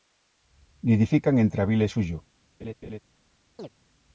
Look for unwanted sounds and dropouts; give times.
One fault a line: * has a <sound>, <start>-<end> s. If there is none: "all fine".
* has a laugh, 2.6-3.0 s
* has a chirp, 3.6-3.7 s